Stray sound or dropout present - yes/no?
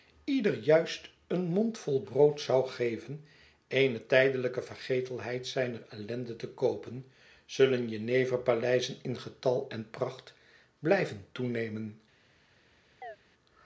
yes